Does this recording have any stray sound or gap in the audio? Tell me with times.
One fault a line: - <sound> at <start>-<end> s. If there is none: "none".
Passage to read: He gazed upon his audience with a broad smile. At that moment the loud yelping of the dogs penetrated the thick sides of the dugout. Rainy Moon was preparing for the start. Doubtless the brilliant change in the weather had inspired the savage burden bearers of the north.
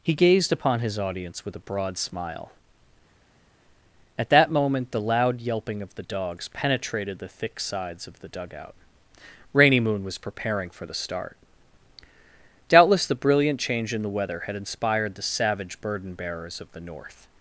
none